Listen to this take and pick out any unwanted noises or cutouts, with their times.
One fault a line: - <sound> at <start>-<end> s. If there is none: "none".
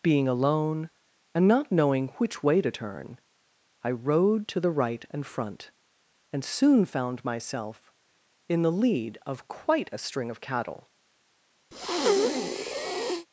- breath at 11.7-13.3 s